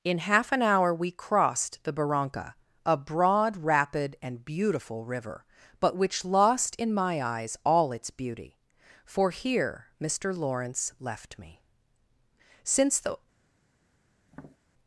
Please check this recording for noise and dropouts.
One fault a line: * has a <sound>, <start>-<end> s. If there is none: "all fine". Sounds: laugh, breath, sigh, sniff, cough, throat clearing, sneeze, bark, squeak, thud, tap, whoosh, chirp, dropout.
* has a tap, 14.3-14.6 s